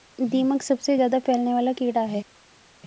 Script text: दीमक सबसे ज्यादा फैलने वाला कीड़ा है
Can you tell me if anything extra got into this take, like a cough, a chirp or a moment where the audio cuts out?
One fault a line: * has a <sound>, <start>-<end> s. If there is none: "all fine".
all fine